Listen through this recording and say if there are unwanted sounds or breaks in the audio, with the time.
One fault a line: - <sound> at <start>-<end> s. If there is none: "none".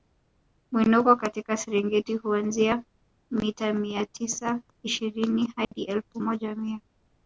- dropout at 5.6-5.7 s